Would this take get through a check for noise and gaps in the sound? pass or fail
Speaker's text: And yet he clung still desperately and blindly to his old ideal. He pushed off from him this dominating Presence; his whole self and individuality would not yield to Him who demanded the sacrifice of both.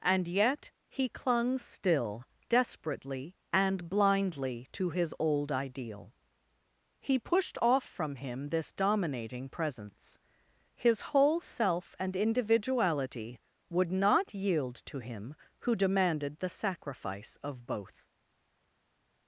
pass